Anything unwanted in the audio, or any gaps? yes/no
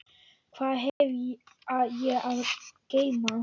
yes